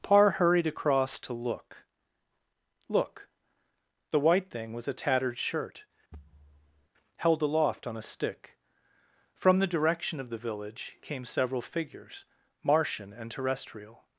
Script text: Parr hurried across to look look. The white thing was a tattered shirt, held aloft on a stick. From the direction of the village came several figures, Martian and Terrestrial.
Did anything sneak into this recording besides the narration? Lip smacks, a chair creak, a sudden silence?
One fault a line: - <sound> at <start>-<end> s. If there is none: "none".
- thud at 6.1-6.9 s